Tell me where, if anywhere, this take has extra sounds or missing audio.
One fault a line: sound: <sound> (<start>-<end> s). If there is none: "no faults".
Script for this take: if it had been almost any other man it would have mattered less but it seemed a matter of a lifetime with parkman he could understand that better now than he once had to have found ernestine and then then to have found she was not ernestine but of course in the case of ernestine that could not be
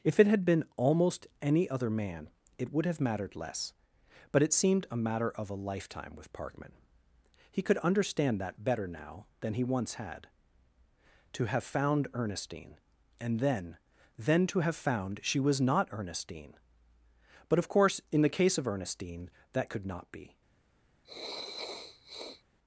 sound: sniff (21.0-22.4 s)